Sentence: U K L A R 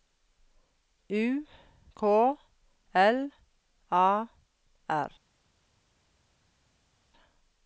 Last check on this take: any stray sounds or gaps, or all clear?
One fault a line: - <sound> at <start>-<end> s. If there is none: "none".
none